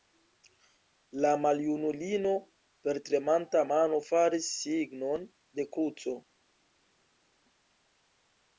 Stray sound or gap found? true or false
false